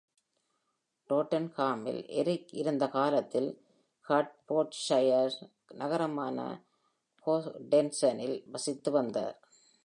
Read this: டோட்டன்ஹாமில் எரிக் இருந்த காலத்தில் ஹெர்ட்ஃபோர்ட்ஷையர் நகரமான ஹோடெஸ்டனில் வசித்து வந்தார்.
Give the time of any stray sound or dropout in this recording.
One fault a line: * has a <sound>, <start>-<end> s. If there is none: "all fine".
all fine